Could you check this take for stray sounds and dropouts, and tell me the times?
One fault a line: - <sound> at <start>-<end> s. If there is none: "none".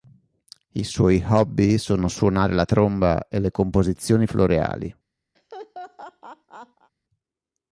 - laugh at 5.3-6.9 s